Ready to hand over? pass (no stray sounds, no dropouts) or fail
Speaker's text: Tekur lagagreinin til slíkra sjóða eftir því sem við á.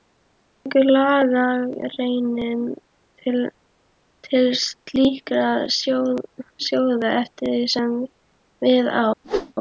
fail